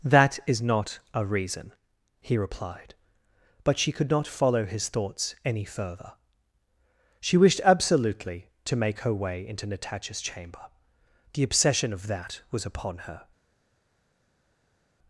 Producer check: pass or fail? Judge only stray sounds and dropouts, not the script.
pass